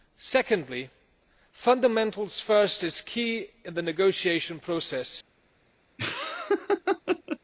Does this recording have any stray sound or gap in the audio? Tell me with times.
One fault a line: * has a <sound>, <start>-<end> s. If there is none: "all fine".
* has a laugh, 6.0-7.4 s